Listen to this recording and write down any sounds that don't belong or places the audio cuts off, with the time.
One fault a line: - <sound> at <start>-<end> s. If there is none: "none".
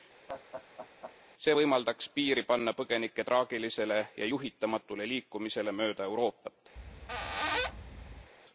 - laugh at 0.3-1.2 s
- squeak at 6.8-8.3 s